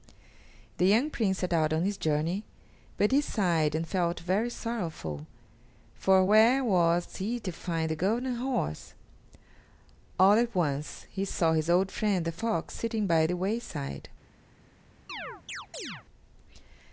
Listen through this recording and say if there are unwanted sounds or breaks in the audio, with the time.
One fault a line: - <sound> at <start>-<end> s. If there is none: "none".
- chirp at 15.1-16.1 s